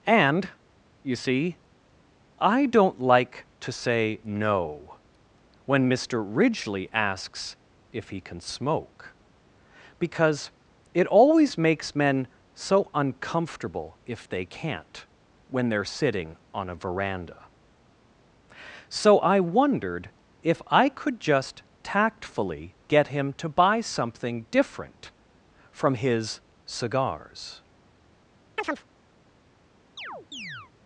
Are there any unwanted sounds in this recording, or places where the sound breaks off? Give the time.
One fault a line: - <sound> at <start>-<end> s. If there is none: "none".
- chirp at 28.6-28.9 s
- chirp at 30.0-30.7 s